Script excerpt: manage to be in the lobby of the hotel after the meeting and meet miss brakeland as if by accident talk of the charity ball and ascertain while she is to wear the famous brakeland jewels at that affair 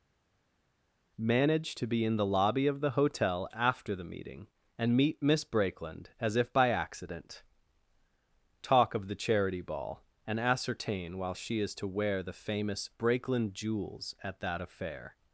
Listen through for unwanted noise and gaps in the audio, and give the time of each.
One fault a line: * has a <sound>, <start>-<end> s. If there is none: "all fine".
all fine